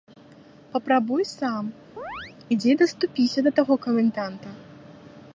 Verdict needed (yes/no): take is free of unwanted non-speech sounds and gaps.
no